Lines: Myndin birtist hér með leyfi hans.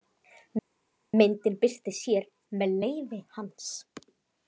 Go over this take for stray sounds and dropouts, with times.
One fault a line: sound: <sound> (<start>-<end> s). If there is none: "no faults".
no faults